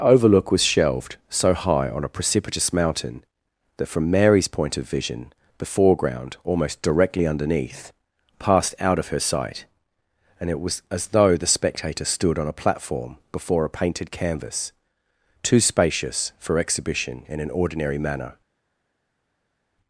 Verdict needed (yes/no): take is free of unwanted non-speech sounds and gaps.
yes